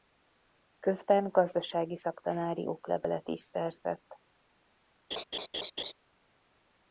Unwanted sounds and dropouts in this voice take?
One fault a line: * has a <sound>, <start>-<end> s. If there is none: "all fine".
* has a laugh, 5.1-5.9 s